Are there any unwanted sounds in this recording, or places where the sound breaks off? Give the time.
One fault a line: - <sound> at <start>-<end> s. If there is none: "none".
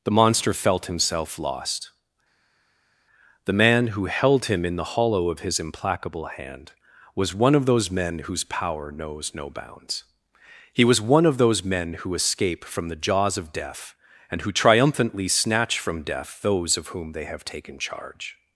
none